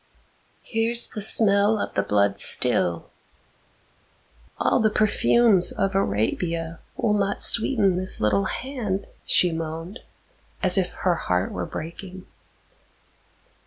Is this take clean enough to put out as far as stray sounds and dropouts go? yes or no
yes